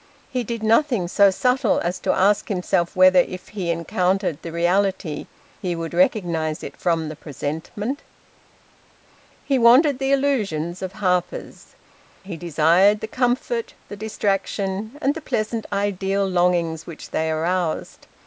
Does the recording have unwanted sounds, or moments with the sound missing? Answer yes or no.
no